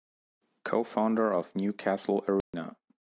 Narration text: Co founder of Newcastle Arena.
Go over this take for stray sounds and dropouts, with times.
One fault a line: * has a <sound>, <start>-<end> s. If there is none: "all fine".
* has a dropout, 2.4-2.5 s